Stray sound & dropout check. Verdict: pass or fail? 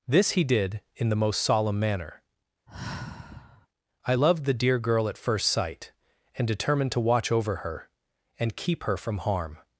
fail